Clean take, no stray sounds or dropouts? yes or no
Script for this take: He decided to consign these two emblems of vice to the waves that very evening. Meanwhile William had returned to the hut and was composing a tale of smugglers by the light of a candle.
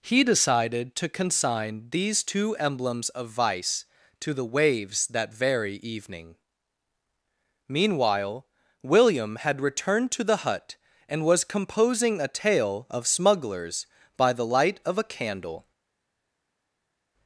yes